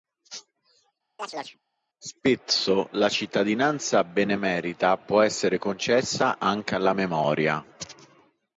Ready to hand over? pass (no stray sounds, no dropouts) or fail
fail